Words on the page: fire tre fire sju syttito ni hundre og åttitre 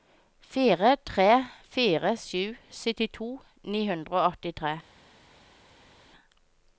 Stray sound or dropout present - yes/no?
no